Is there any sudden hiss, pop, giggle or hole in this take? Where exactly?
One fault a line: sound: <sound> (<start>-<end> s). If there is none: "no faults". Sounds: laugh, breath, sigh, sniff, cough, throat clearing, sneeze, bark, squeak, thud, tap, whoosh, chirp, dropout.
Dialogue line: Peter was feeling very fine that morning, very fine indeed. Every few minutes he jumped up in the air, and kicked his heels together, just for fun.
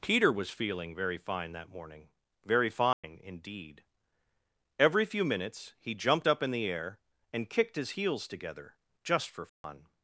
sound: dropout (2.9-3.0 s)
sound: dropout (9.5-9.6 s)